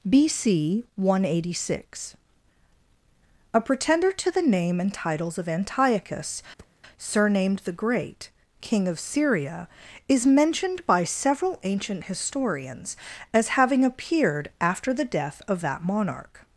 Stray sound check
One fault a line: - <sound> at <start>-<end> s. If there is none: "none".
- thud at 6.6-6.8 s